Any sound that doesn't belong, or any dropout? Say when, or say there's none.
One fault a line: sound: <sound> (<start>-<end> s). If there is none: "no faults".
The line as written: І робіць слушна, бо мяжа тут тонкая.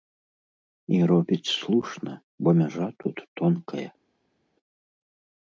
no faults